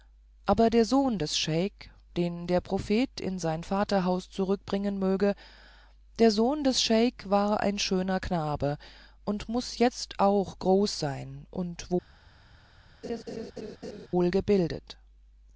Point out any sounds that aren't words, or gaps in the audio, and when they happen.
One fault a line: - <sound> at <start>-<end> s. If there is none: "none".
- laugh at 13.0-14.1 s